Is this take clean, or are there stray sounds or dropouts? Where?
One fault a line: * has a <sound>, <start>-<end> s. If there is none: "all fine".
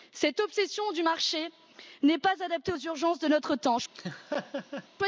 * has a laugh, 3.9-4.9 s